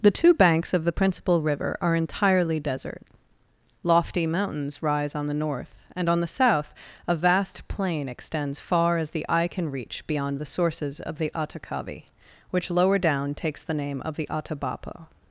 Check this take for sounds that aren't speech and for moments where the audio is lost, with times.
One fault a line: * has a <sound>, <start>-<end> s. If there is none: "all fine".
all fine